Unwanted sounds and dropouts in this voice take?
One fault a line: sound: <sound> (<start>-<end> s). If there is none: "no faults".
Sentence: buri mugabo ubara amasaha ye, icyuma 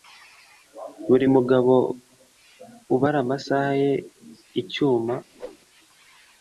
sound: whoosh (5.3-5.6 s)